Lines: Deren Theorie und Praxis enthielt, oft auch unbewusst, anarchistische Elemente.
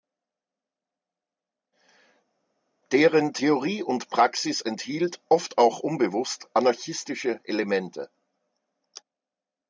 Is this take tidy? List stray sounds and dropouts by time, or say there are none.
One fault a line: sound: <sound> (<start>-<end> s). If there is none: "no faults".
no faults